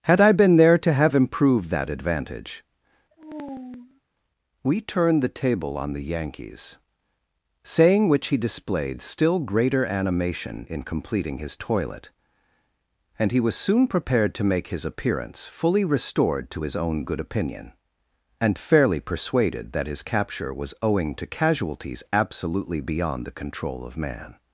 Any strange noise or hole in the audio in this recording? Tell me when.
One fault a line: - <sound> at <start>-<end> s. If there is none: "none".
- sigh at 3.1-4.0 s